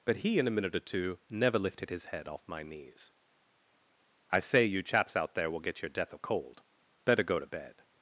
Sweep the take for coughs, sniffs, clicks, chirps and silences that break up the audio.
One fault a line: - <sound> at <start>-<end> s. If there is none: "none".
none